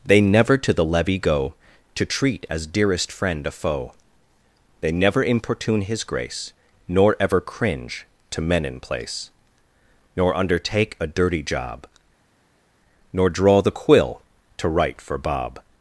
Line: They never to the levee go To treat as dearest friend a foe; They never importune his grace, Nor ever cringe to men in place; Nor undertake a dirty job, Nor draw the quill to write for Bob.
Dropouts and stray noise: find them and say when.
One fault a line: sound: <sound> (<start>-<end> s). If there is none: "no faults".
no faults